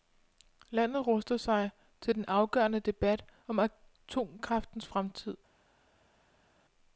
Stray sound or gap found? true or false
false